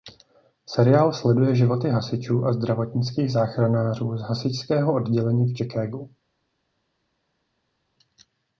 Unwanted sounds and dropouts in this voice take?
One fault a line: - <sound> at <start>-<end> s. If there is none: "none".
none